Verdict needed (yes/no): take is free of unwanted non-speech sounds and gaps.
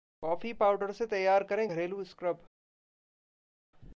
yes